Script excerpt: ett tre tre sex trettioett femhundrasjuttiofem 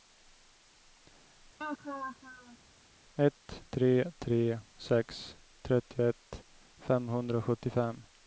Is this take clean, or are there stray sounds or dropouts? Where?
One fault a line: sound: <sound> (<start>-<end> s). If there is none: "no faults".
sound: laugh (1.6-2.6 s)